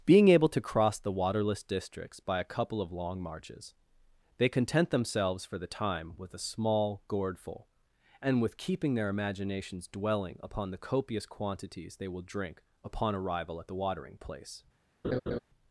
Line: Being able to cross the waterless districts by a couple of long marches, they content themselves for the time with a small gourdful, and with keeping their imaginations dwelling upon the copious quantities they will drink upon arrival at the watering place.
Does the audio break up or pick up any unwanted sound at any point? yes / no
yes